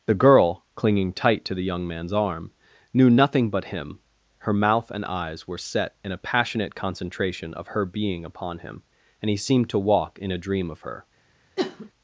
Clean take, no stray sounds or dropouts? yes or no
no